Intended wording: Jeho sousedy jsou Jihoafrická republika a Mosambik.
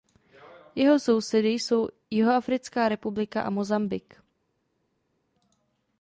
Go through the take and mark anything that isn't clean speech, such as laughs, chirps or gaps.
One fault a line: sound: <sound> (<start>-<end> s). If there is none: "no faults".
no faults